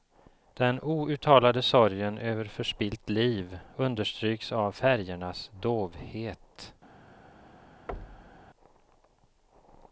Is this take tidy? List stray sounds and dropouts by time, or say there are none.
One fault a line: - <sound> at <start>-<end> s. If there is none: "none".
- thud at 7.9-8.5 s